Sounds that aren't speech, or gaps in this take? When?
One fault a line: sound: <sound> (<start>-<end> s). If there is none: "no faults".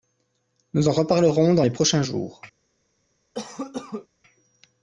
sound: cough (3.3-4.1 s)